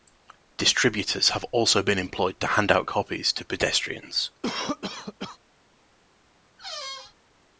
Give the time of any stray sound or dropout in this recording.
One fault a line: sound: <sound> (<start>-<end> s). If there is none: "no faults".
sound: cough (4.4-5.4 s)
sound: squeak (6.6-7.2 s)